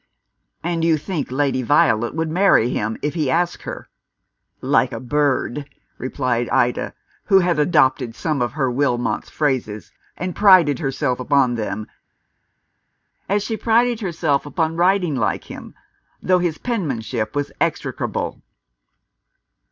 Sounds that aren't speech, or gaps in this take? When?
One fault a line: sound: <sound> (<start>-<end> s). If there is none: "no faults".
no faults